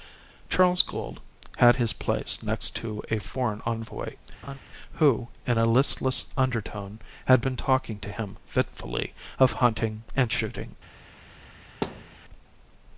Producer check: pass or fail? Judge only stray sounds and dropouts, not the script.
fail